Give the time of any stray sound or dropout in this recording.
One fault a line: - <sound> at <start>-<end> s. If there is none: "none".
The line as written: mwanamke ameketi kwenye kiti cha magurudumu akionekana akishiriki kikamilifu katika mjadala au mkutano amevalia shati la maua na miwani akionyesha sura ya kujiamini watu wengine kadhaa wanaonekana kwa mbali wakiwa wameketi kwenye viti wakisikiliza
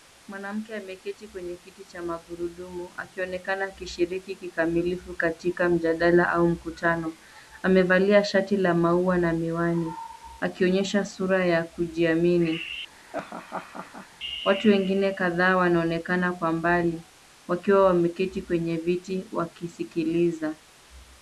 - laugh at 13.0-14.1 s